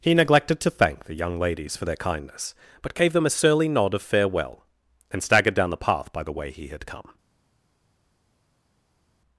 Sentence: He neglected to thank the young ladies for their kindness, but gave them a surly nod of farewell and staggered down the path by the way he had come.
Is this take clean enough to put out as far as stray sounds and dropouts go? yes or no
yes